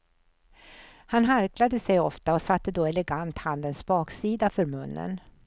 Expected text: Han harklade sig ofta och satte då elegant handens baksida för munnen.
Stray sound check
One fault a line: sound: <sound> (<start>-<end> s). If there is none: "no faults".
no faults